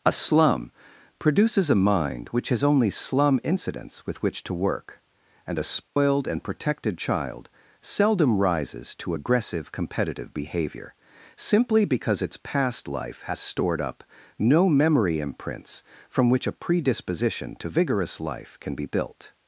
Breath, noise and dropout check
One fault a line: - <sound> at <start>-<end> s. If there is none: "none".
- dropout at 5.9-6.0 s